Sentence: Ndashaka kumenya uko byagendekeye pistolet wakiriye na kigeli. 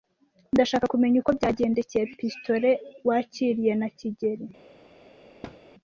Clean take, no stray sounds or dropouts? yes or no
no